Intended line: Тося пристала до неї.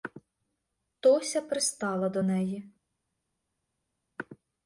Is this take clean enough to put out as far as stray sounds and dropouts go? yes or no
yes